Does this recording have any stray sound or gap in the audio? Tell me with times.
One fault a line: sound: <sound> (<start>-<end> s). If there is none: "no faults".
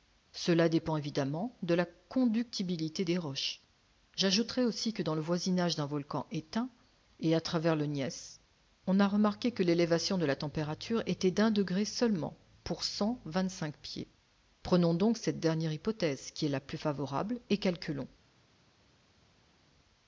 no faults